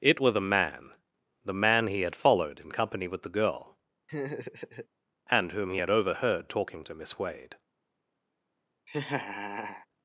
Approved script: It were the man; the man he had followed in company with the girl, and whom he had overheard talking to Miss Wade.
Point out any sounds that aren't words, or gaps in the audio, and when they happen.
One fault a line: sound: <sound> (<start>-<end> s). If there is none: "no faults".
sound: laugh (4.1-4.9 s)
sound: laugh (8.9-9.9 s)